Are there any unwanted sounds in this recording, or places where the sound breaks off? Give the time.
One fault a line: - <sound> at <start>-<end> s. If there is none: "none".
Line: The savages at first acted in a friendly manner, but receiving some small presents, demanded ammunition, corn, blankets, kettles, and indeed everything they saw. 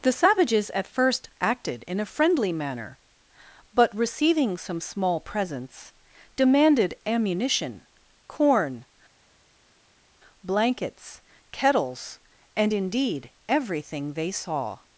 none